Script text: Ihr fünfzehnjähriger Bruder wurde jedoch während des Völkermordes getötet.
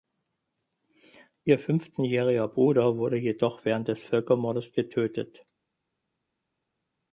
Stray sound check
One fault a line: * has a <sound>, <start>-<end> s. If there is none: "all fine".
all fine